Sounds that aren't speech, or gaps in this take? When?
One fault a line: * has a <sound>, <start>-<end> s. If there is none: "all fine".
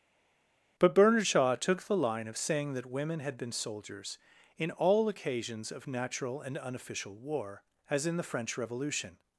all fine